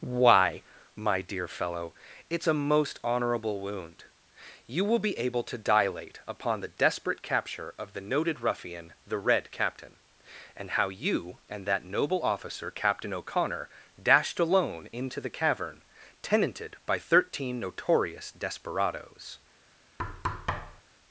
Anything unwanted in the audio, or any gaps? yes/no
yes